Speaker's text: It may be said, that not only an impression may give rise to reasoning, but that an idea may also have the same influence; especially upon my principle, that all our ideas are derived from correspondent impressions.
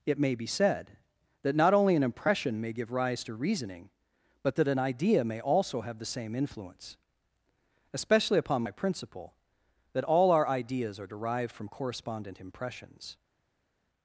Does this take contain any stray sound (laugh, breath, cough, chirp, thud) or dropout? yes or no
no